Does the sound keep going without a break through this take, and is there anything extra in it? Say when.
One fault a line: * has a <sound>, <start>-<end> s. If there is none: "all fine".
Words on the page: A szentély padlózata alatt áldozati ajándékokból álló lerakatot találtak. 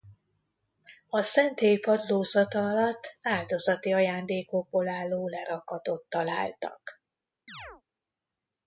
* has a chirp, 7.5-7.8 s